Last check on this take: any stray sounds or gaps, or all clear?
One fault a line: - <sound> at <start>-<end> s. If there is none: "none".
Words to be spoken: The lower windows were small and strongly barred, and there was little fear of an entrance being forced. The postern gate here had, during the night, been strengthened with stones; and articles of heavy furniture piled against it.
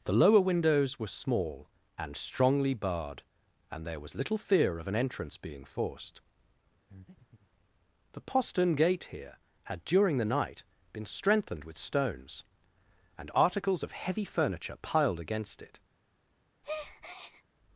- breath at 6.9-7.5 s
- breath at 16.6-17.4 s